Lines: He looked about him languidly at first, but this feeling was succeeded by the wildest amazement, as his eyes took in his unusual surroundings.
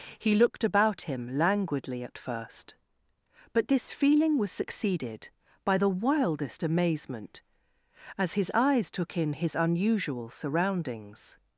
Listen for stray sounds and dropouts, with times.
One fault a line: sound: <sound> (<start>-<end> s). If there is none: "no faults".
no faults